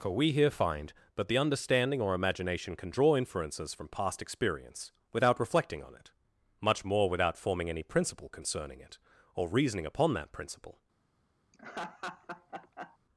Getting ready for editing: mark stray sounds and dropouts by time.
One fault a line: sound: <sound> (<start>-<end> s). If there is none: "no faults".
sound: laugh (11.5-13.0 s)